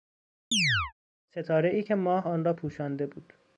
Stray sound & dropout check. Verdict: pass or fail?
fail